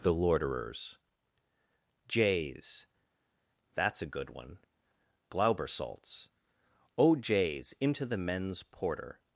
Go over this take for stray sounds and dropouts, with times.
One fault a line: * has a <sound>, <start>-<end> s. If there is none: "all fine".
all fine